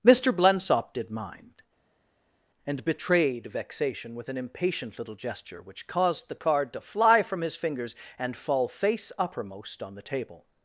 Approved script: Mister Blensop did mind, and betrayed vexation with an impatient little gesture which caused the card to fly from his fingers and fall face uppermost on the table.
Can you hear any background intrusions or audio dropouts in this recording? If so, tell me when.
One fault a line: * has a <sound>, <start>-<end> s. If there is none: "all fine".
all fine